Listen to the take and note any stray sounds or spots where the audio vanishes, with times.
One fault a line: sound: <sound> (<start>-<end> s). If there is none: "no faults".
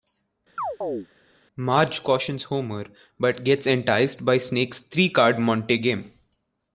sound: chirp (0.6-1.1 s)